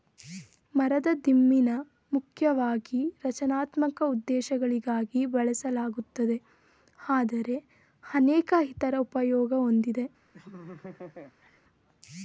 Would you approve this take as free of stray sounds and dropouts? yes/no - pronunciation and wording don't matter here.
no